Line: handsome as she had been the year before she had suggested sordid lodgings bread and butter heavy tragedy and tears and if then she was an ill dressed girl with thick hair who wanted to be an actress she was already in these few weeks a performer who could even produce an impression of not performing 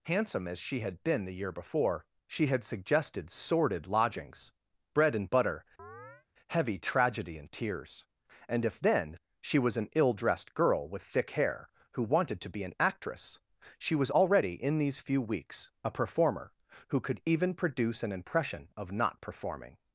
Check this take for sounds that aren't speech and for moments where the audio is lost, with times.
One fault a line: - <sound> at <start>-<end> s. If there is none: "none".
- chirp at 5.8-6.3 s